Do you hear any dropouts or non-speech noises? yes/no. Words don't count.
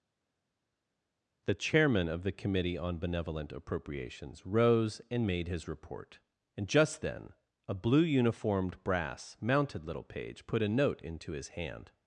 no